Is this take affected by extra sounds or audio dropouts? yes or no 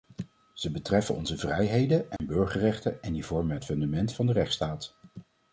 yes